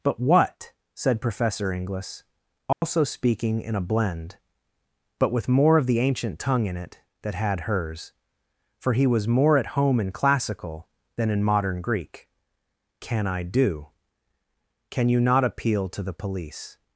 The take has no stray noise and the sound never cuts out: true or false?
false